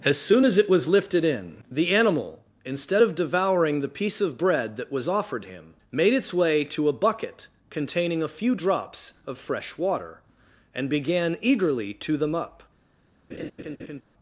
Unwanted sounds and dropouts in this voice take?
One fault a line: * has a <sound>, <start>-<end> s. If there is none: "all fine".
* has a laugh, 13.3-14.0 s